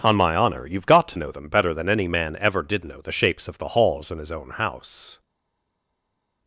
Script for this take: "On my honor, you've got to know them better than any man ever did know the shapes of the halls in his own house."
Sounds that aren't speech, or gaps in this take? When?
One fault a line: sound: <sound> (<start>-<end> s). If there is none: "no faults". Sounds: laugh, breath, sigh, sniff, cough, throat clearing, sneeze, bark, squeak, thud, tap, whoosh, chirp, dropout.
no faults